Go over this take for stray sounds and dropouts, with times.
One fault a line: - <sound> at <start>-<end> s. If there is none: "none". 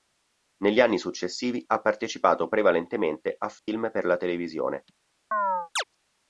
- dropout at 3.6-3.7 s
- chirp at 5.3-5.8 s